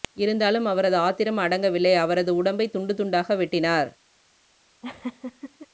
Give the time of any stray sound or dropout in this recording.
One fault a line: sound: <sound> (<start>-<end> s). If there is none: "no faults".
sound: laugh (4.8-5.7 s)